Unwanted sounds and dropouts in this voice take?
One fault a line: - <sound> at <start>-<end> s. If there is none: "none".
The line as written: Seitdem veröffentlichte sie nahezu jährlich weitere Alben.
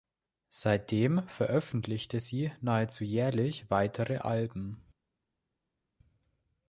none